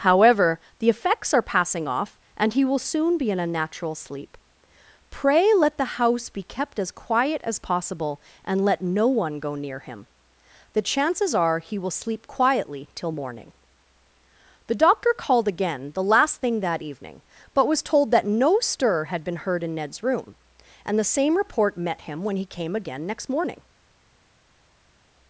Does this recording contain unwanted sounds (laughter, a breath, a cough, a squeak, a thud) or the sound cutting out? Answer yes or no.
no